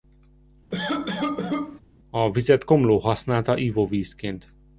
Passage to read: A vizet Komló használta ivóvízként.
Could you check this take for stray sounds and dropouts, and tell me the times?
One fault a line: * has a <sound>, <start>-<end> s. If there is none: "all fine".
* has a cough, 0.7-1.8 s